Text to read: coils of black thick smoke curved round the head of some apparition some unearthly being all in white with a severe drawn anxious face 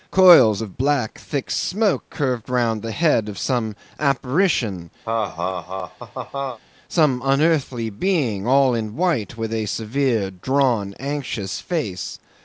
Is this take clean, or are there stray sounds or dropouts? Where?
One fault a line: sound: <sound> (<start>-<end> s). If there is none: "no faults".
sound: laugh (5.0-6.6 s)